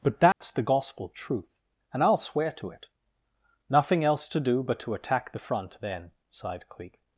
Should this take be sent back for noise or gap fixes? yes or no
yes